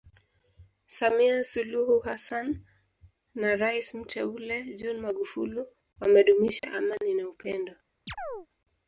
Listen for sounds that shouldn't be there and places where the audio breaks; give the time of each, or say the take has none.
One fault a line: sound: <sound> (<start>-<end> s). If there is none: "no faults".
sound: dropout (6.6-6.6 s)
sound: chirp (8.1-8.5 s)